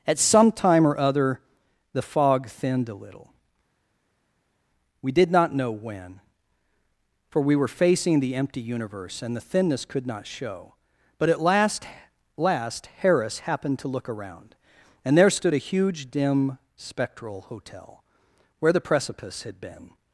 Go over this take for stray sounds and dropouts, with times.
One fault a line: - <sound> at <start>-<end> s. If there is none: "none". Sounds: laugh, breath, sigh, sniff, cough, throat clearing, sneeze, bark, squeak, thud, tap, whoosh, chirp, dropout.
none